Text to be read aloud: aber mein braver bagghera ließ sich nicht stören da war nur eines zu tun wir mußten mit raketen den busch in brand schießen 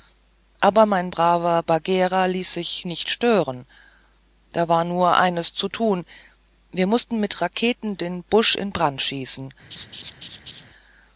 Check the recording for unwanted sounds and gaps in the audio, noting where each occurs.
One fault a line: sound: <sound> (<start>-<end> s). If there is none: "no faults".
sound: laugh (9.7-10.6 s)